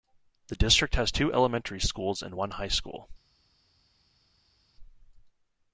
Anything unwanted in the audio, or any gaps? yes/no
no